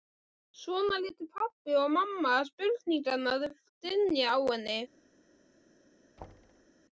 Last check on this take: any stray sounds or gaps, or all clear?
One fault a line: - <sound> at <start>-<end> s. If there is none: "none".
- thud at 6.2-6.7 s